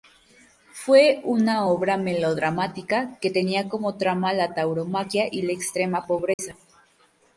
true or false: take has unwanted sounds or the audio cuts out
true